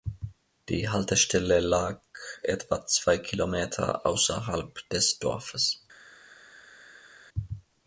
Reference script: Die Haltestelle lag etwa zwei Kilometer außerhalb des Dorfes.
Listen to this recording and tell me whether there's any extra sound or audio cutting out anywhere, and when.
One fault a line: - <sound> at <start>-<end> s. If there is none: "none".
none